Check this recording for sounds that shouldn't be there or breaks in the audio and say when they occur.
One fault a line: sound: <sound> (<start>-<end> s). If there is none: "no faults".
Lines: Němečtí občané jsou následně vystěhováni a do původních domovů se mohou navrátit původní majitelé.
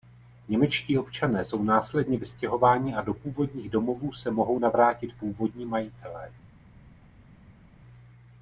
no faults